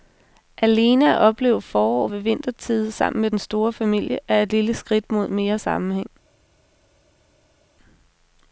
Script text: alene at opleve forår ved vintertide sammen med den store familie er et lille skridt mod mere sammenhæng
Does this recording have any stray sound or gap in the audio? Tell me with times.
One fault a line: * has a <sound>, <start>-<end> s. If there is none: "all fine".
all fine